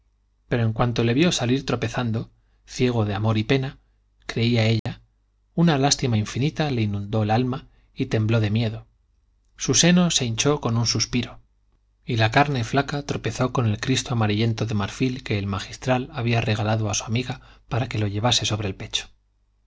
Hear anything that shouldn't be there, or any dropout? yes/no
yes